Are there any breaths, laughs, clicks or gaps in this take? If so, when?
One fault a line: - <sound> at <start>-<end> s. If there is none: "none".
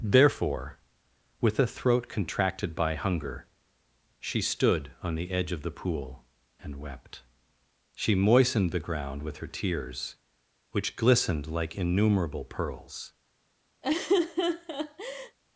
- laugh at 13.8-15.4 s